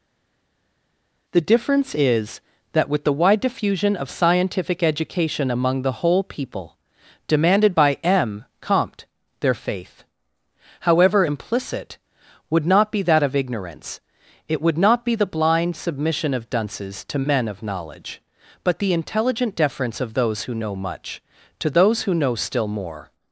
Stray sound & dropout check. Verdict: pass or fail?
pass